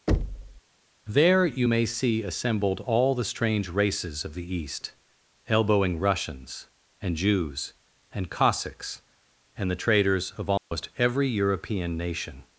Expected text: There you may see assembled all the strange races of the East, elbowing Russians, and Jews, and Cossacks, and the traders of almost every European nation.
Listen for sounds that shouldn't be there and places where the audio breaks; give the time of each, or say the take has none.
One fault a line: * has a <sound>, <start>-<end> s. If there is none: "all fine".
* has a thud, 0.1-0.6 s
* has a dropout, 10.6-10.7 s